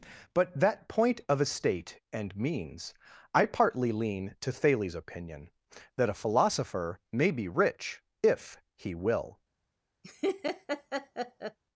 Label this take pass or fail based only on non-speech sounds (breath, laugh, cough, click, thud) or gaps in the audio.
fail